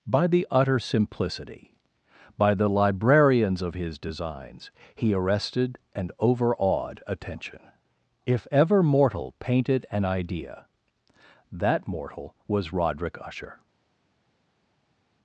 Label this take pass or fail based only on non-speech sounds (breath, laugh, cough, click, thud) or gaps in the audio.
pass